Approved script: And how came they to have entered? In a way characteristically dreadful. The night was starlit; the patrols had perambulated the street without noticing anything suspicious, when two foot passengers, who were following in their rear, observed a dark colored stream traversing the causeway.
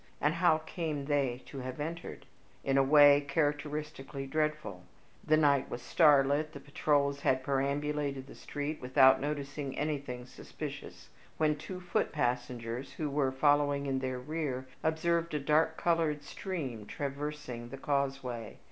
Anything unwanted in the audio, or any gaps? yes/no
no